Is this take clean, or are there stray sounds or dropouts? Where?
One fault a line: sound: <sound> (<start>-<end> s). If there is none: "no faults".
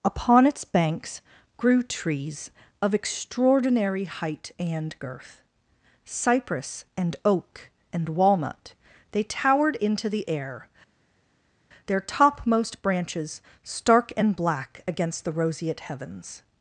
no faults